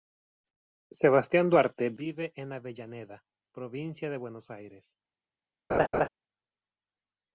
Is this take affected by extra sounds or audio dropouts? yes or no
yes